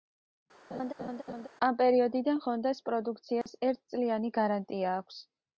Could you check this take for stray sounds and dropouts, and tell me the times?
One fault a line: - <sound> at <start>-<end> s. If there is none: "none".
- laugh at 0.7-1.5 s
- dropout at 3.4-3.5 s